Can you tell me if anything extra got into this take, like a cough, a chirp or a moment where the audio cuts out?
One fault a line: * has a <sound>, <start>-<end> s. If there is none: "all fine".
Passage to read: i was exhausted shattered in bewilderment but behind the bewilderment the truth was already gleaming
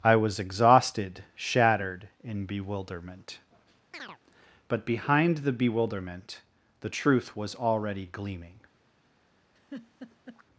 * has a chirp, 3.9-4.2 s
* has a laugh, 9.6-10.4 s